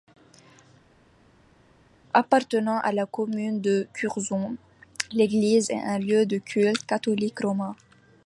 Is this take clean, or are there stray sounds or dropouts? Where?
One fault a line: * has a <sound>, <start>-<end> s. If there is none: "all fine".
all fine